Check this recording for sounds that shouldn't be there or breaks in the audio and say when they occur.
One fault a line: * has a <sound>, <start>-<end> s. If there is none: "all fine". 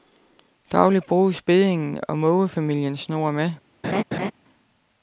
* has a laugh, 3.8-4.3 s